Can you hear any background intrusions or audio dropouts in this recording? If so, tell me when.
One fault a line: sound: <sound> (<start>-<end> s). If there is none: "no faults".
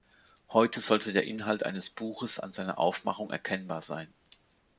no faults